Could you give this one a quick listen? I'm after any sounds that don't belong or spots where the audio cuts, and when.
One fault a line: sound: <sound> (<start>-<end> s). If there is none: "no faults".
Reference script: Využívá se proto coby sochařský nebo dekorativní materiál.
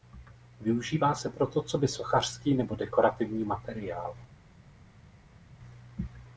no faults